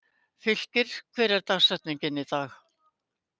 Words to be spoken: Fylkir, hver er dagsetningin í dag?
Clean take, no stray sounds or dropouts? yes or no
yes